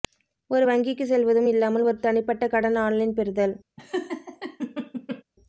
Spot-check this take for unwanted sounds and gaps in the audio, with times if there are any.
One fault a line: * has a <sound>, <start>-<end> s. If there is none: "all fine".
* has a laugh, 3.8-5.2 s